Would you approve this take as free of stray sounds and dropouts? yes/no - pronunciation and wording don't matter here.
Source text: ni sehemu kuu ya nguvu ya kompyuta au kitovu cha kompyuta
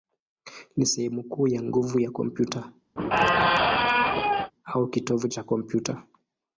no